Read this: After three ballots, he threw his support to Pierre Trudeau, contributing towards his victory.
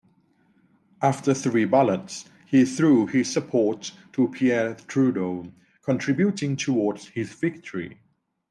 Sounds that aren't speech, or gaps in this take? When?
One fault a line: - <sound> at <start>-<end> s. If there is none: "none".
none